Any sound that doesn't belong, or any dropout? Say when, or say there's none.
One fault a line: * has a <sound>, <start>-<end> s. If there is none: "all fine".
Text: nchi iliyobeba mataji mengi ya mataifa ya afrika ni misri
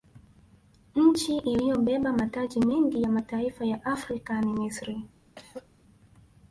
* has a throat clearing, 5.4-5.7 s